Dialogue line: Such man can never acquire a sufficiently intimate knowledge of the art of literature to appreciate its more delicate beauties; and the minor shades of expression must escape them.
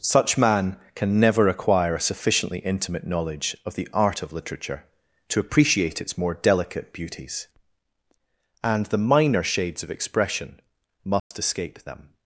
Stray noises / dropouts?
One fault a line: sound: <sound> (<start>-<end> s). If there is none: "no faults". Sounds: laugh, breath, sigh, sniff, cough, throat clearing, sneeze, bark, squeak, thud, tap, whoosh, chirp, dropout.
sound: dropout (11.2-11.3 s)